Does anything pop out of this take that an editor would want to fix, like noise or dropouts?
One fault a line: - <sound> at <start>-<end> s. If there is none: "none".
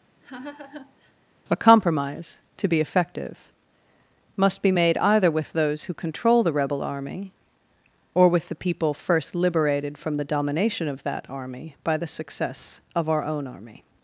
- laugh at 0.2-1.1 s